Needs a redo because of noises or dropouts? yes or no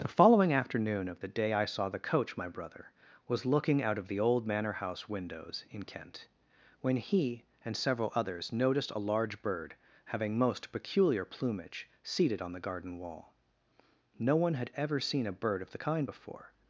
no